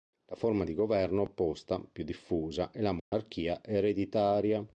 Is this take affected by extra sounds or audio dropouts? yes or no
yes